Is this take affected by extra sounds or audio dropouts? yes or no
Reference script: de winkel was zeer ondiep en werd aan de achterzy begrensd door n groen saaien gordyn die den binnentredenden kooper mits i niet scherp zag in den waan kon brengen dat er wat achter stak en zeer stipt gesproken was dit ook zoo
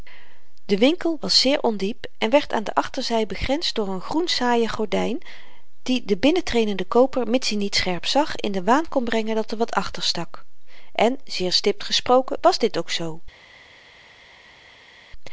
no